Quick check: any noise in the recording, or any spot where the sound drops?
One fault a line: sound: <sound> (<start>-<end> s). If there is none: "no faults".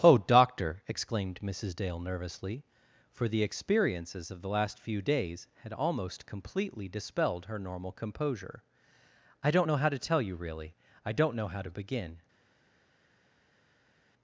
no faults